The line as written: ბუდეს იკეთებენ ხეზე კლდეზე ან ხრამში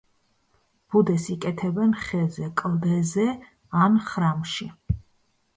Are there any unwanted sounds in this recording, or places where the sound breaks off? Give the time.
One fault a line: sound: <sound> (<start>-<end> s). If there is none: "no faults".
no faults